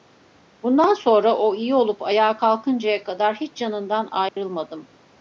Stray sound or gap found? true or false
true